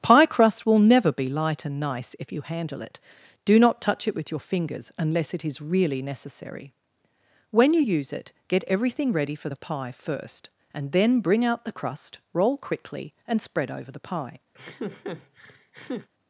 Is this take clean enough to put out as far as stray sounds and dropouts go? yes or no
no